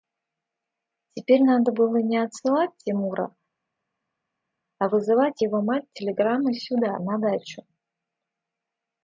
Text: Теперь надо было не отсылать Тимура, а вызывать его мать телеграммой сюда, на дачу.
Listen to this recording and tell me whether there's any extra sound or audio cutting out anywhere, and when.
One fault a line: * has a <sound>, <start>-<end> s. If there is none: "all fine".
all fine